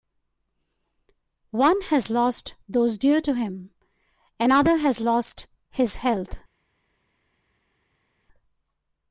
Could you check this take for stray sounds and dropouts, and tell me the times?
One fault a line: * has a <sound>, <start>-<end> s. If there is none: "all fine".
all fine